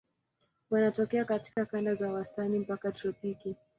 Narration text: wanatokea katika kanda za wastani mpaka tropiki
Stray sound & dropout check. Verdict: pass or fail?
fail